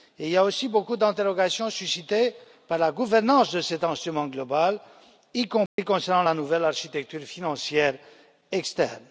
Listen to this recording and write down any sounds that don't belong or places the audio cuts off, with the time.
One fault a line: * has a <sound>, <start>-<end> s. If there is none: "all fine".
* has a dropout, 5.7-5.8 s